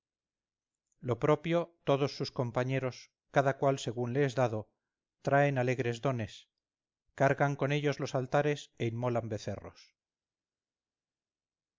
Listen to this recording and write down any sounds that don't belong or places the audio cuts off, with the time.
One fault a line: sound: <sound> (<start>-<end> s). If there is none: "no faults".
no faults